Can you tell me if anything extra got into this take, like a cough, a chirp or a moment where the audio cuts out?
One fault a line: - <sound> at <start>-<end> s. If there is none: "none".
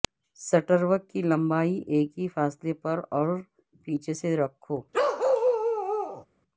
- bark at 4.9-6.3 s